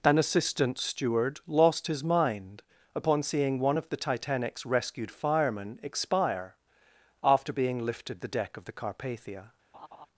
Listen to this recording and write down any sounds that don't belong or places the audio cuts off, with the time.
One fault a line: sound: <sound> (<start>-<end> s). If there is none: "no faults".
sound: laugh (9.7-10.1 s)